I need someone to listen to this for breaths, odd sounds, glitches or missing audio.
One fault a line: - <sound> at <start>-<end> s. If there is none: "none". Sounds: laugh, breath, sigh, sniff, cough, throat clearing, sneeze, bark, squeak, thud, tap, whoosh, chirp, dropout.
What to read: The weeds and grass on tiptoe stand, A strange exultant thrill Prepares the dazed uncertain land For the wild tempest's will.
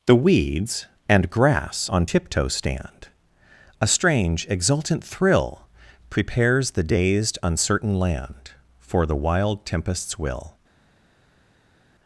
none